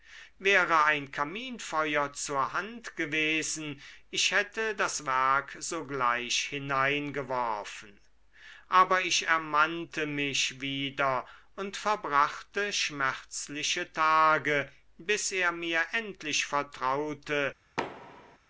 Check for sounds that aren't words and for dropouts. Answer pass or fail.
fail